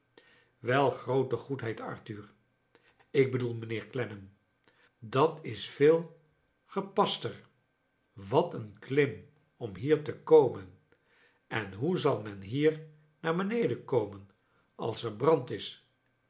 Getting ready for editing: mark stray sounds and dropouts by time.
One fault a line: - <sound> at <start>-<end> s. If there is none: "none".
none